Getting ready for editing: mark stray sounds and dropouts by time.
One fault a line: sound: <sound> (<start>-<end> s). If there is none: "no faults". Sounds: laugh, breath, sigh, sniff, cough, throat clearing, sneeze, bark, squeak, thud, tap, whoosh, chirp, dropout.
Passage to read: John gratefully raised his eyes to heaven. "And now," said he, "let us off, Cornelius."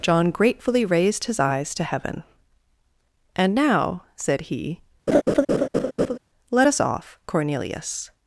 sound: laugh (5.1-6.2 s)